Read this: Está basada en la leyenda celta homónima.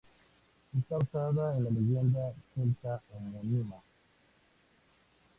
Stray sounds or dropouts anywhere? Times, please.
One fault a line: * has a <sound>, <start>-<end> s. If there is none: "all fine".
all fine